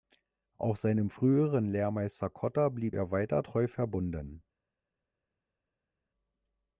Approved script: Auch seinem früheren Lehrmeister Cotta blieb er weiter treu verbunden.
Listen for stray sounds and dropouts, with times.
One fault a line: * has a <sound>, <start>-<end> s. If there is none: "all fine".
all fine